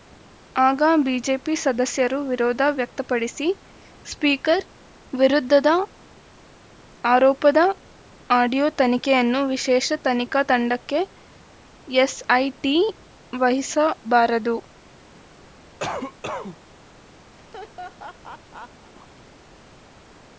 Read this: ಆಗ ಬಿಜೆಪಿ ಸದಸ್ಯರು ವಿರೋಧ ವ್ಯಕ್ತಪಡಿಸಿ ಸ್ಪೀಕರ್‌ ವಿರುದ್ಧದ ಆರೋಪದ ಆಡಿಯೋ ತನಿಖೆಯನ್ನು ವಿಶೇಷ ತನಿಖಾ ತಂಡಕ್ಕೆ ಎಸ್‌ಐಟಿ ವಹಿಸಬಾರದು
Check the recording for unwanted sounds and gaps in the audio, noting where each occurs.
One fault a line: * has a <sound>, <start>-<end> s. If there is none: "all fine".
* has a cough, 15.8-16.6 s
* has a laugh, 17.4-18.9 s